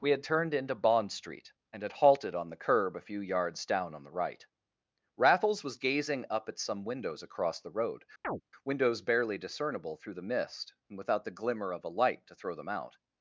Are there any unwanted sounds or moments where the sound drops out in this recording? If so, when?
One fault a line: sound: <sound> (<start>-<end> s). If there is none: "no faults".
sound: chirp (8.2-8.4 s)